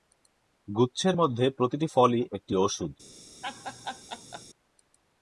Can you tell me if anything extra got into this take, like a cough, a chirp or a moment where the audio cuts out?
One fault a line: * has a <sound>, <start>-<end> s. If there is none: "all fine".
* has a laugh, 3.4-4.4 s